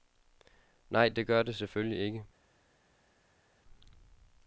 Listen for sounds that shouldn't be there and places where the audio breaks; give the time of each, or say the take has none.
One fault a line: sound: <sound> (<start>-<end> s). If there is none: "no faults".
no faults